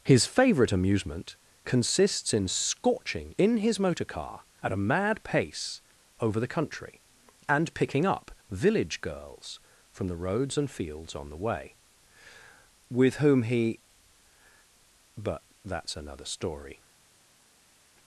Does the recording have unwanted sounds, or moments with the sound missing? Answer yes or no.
no